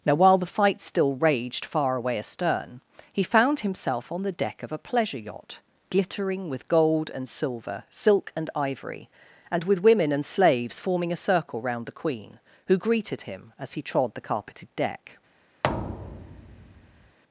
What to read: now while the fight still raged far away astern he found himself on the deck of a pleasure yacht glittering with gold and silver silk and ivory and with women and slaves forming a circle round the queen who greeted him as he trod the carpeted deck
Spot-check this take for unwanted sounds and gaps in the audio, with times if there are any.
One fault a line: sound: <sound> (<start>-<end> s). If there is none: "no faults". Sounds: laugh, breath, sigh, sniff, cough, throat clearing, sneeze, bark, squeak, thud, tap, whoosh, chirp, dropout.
sound: thud (15.6-17.2 s)